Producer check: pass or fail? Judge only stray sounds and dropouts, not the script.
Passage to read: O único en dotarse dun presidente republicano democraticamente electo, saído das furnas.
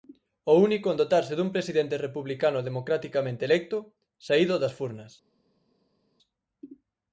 pass